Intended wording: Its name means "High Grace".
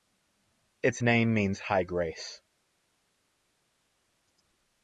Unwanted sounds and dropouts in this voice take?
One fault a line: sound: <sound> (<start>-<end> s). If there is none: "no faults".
no faults